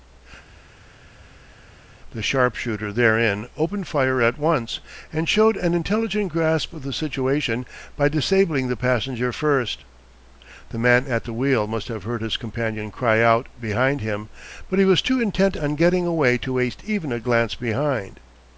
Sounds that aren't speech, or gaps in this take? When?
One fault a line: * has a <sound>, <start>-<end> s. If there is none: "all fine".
all fine